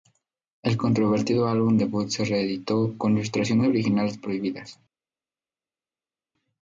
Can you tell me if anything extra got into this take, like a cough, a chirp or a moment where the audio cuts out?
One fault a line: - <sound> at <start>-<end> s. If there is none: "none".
none